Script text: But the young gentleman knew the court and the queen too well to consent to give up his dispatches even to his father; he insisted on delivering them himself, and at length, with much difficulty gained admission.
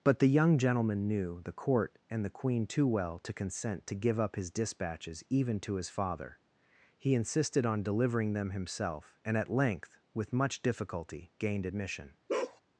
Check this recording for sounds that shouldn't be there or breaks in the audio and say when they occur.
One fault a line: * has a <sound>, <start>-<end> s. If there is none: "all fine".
* has a bark, 12.3-12.6 s